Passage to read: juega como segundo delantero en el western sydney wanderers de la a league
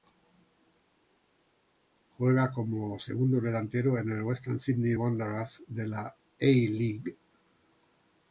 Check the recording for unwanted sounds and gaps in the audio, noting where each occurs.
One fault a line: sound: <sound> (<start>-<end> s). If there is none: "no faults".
no faults